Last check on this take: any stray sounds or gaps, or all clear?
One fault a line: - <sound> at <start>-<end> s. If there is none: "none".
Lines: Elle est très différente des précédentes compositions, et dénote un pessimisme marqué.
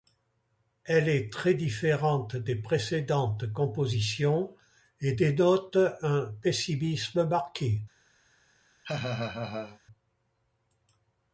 - laugh at 8.8-9.8 s